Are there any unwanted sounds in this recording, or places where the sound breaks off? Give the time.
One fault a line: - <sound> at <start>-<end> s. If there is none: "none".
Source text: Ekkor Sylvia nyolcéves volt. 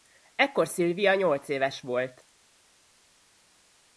none